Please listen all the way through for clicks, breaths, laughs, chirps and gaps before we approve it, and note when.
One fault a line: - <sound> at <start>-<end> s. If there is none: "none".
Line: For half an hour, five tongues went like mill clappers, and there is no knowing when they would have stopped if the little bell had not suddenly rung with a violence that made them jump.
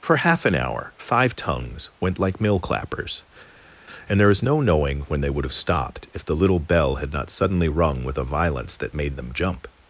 none